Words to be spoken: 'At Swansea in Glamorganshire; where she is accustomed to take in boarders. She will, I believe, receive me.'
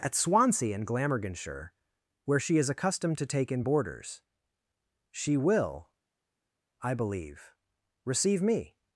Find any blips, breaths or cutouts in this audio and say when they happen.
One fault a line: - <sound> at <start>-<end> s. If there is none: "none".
none